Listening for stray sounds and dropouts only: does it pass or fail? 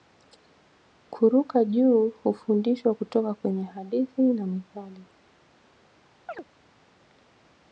fail